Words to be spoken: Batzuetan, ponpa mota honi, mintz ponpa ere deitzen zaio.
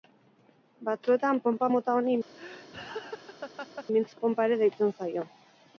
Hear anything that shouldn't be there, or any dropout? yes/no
yes